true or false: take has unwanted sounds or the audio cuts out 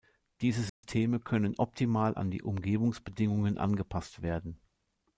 true